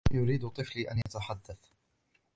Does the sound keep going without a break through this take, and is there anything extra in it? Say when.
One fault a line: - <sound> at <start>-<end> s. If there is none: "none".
- dropout at 1.0-1.1 s